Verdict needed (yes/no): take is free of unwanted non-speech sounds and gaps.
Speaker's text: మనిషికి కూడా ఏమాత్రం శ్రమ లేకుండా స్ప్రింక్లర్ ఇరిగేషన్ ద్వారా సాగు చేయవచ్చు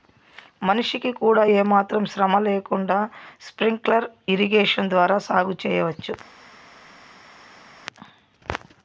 yes